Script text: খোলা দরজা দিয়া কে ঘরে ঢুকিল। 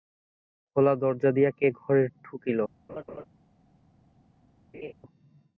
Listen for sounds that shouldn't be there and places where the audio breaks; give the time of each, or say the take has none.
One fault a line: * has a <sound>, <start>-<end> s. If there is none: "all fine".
* has a laugh, 2.9-3.3 s
* has a laugh, 4.7-4.9 s